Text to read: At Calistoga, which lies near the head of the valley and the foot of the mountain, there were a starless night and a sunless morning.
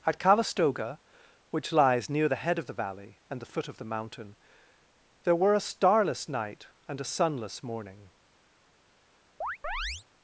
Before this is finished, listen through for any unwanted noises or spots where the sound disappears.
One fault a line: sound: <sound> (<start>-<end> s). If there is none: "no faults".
sound: chirp (9.4-10.0 s)